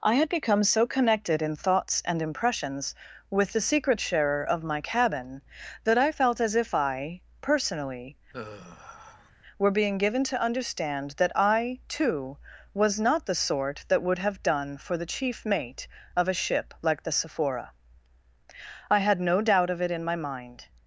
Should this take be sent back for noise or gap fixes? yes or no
yes